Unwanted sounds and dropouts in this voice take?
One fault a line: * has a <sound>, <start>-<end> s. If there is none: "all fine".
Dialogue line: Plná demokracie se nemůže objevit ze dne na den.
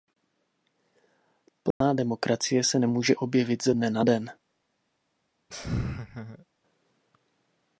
* has a dropout, 1.7-1.8 s
* has a laugh, 5.5-6.4 s